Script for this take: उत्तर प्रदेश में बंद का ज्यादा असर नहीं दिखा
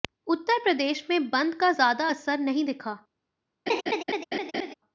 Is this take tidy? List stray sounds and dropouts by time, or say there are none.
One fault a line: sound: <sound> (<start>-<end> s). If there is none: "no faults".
sound: laugh (3.7-4.7 s)